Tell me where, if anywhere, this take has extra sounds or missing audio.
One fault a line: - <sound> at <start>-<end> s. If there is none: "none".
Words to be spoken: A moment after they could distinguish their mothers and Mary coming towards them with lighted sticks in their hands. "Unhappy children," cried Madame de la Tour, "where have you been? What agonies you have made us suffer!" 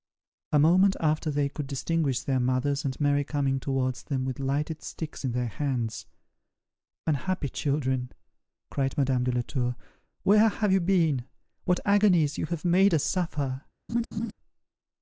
- laugh at 13.9-14.3 s